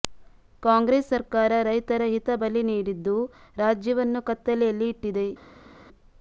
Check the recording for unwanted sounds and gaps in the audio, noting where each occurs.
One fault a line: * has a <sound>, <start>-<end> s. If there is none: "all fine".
all fine